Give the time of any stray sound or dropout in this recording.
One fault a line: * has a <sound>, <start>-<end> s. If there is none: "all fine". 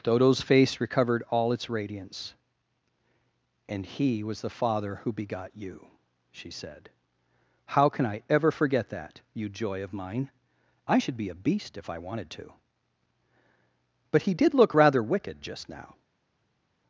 all fine